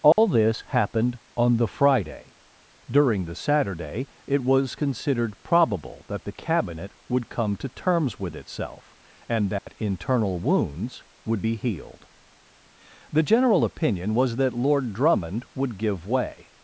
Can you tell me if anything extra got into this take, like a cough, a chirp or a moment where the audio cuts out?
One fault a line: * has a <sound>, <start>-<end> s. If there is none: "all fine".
* has a dropout, 0.1-0.2 s
* has a dropout, 9.6-9.7 s